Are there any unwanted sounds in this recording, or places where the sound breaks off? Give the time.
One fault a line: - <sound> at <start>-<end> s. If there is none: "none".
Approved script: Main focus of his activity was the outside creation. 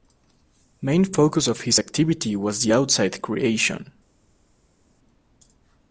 none